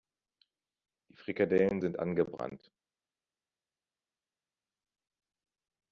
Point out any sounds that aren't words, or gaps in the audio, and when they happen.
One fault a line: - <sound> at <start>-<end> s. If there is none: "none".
none